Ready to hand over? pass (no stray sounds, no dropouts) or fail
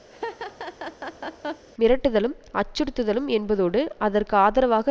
fail